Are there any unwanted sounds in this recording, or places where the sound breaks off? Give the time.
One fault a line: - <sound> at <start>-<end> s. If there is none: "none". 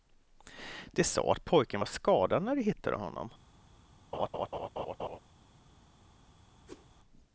- laugh at 4.1-5.2 s
- whoosh at 6.7-6.9 s